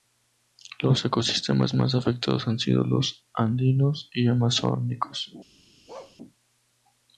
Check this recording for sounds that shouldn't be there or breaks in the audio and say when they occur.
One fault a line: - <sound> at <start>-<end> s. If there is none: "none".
- bark at 5.9-6.2 s